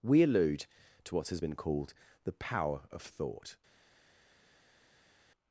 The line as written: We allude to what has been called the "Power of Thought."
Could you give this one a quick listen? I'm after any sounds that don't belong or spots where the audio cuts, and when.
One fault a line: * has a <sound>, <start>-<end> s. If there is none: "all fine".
all fine